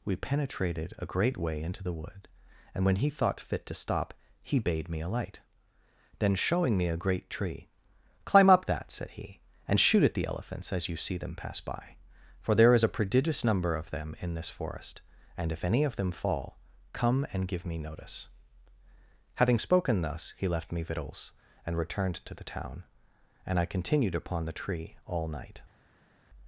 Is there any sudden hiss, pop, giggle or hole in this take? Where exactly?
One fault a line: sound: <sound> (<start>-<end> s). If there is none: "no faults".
no faults